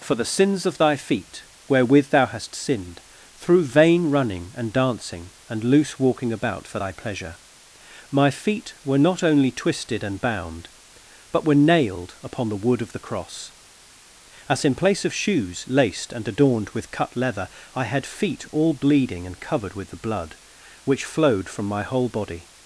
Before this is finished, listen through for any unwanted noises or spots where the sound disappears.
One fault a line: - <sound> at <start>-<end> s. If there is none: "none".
none